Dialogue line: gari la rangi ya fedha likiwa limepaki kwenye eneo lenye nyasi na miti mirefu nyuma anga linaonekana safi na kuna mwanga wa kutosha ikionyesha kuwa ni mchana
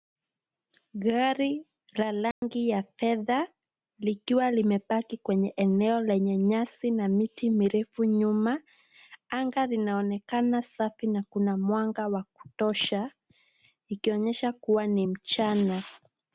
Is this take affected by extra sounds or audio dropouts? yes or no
yes